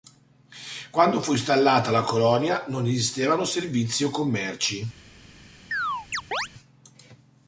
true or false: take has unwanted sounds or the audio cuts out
true